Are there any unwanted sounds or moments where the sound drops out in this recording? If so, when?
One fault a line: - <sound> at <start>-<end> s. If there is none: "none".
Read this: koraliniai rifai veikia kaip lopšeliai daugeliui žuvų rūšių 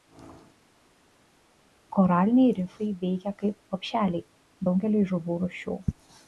none